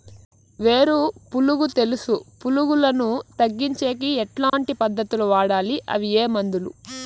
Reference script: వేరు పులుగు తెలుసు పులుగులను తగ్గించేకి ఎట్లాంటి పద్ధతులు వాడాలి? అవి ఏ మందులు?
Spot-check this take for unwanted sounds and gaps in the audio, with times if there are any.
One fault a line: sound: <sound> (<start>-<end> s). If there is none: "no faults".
sound: dropout (4.5-4.5 s)